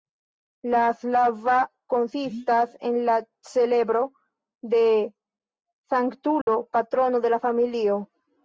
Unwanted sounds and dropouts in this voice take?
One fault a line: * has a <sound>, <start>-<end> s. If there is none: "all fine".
* has a dropout, 6.4-6.5 s